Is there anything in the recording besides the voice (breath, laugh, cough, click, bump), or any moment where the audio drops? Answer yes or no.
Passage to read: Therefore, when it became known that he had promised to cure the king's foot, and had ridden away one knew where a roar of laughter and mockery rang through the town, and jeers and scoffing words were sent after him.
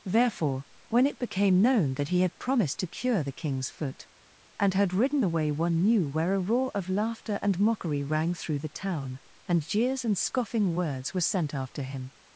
no